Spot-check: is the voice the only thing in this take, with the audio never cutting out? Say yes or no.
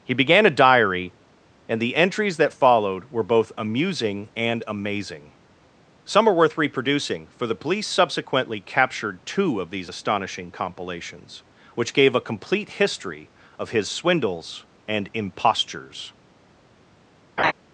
no